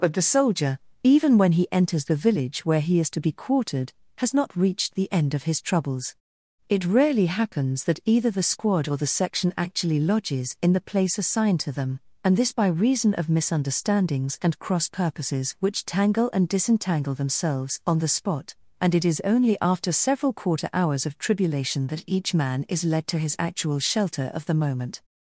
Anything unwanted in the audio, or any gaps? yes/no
no